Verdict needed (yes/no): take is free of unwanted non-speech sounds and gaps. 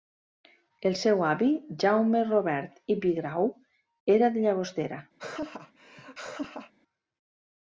no